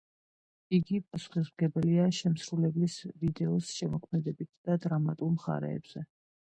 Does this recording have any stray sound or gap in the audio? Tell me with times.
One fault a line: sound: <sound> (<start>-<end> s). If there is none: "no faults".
no faults